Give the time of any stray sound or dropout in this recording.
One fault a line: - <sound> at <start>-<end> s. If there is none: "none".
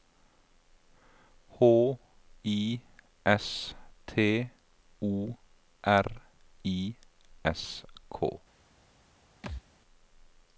- thud at 9.4-9.6 s